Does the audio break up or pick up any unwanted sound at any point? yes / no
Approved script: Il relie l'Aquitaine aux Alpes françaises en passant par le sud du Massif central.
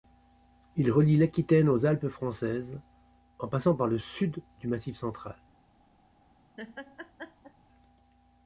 yes